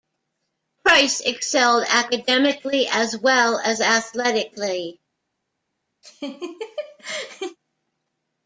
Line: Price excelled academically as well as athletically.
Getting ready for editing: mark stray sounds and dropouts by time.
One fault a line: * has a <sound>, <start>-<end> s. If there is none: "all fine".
* has a laugh, 6.0-7.6 s